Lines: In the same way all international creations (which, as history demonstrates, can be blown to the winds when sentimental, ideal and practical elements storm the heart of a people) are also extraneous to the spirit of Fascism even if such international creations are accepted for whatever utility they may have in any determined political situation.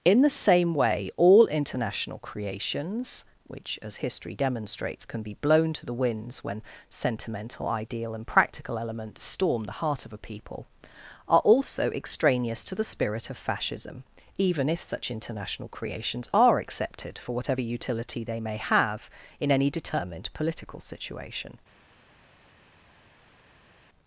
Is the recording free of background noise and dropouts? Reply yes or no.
yes